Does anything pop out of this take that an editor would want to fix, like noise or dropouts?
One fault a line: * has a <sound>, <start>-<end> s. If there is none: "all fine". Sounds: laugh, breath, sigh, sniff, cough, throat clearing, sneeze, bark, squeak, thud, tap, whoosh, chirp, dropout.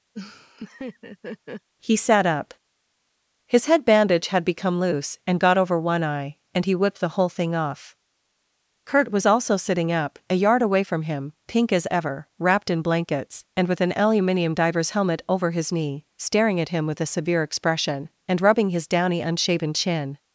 * has a laugh, 0.1-1.7 s